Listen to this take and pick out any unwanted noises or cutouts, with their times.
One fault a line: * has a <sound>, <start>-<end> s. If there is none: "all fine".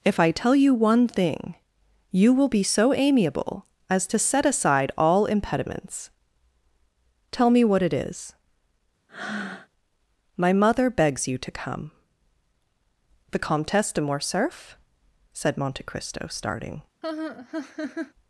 * has a breath, 9.1-9.7 s
* has a laugh, 17.0-18.1 s